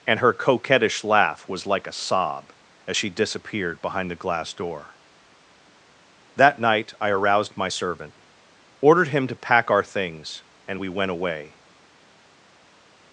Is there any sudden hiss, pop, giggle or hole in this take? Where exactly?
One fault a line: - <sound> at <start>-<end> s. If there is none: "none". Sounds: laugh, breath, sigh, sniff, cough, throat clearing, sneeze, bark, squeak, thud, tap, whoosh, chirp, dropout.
none